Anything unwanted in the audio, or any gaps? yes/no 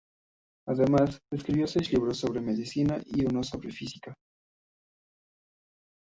no